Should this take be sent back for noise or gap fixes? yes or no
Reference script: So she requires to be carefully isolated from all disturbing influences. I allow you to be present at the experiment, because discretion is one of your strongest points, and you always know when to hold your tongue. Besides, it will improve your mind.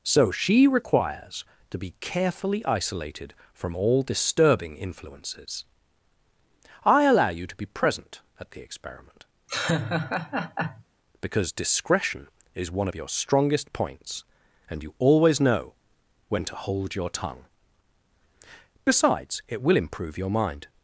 yes